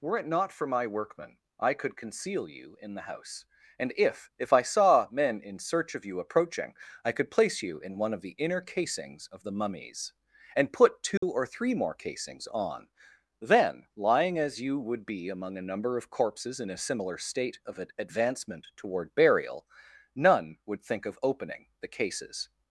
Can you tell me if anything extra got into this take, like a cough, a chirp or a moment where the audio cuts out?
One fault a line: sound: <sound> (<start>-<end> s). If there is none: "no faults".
sound: dropout (11.2-11.2 s)